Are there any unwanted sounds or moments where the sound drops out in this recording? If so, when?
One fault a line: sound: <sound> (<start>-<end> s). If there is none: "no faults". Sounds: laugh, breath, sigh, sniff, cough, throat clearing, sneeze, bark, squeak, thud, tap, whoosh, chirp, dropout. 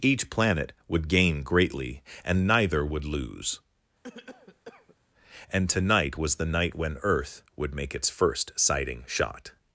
sound: cough (4.0-5.0 s)